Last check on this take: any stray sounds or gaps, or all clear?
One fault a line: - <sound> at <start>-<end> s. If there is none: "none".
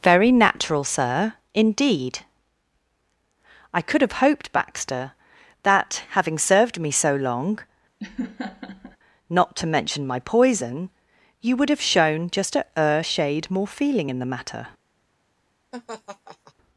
- laugh at 8.0-9.0 s
- laugh at 15.7-16.5 s